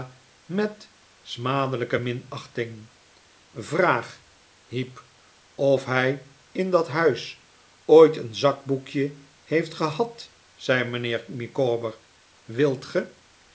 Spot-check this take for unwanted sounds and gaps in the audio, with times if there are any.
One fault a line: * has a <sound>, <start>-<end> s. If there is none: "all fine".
all fine